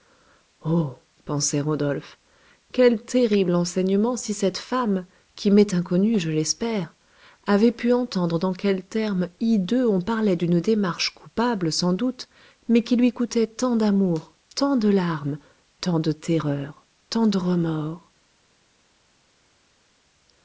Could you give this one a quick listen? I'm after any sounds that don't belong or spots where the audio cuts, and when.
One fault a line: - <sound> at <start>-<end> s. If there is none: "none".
none